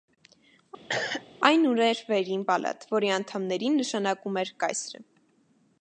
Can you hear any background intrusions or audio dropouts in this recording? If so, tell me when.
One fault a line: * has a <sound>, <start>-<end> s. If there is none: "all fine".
* has a cough, 0.9-1.3 s